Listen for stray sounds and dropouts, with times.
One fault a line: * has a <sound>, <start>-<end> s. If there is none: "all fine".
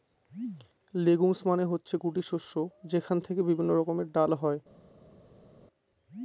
all fine